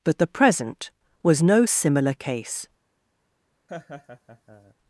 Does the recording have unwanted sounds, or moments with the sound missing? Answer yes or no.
yes